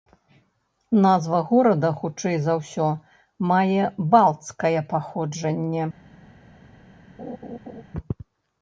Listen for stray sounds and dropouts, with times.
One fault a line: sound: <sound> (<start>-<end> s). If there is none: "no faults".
sound: laugh (7.2-7.8 s)